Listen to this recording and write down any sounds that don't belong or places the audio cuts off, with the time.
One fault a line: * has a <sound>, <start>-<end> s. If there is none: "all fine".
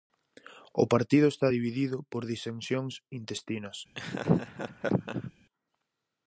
* has a laugh, 3.9-5.3 s